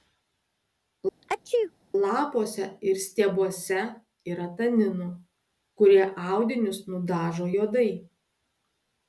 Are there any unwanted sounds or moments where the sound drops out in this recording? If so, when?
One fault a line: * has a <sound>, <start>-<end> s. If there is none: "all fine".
* has a sneeze, 1.2-1.7 s